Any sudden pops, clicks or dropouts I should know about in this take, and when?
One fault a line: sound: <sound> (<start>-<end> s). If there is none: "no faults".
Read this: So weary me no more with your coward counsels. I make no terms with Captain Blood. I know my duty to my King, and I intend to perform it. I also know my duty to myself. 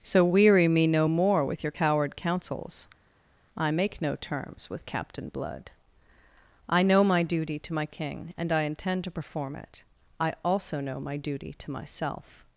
no faults